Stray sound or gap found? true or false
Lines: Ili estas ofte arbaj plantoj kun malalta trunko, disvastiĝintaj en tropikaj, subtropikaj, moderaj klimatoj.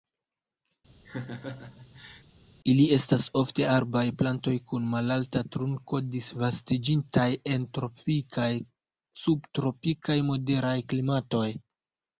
true